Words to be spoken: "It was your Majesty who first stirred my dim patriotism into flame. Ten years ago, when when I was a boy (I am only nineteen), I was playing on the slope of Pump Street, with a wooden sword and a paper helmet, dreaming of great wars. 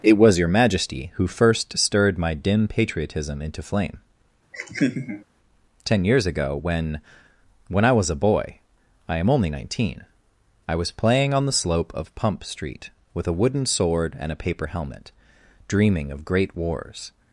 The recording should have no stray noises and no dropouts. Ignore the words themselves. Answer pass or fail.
fail